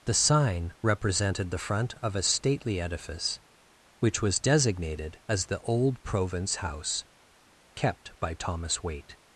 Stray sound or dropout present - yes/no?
no